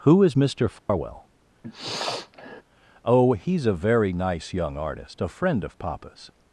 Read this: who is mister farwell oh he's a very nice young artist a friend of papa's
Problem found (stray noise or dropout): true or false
true